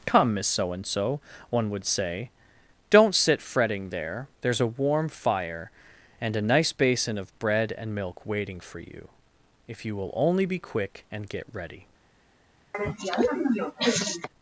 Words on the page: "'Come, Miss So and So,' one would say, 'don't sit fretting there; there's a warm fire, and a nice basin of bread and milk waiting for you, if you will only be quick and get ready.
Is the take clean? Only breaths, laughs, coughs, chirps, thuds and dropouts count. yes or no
no